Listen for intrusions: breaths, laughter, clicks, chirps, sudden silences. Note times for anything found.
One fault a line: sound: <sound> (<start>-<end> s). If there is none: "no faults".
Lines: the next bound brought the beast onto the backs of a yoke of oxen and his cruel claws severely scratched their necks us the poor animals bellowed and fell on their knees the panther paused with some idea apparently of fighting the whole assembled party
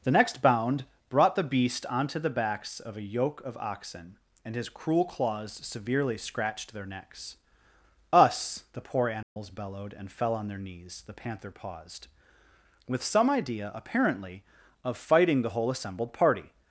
sound: dropout (9.2-9.4 s)